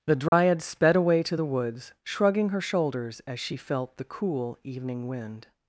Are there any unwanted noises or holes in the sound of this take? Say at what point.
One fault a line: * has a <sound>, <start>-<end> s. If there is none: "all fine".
* has a dropout, 0.3-0.3 s